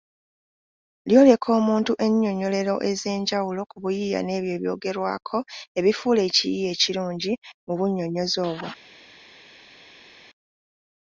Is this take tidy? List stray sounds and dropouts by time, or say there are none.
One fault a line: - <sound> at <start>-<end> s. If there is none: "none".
none